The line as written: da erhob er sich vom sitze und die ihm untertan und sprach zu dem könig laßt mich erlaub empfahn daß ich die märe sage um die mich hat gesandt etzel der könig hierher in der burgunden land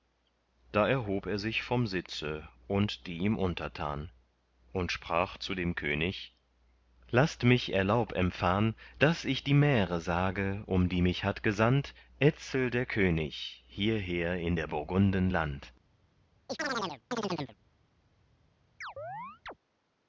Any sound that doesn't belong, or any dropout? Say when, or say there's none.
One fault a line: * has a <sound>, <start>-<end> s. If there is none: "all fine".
* has a chirp, 16.5-17.6 s
* has a chirp, 18.8-19.5 s